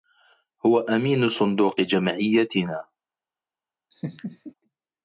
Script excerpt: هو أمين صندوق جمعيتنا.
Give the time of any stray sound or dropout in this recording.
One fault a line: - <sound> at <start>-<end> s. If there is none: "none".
- laugh at 3.9-4.5 s